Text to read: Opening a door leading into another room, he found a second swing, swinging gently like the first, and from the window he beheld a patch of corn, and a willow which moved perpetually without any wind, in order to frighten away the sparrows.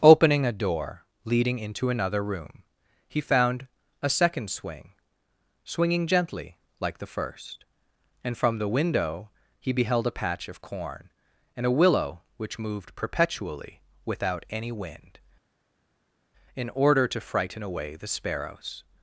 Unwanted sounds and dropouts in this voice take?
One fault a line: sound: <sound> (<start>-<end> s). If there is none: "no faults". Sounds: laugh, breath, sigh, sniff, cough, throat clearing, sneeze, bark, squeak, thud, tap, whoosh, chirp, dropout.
no faults